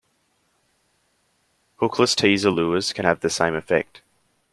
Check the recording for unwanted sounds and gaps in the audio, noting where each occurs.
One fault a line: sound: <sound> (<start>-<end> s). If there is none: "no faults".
no faults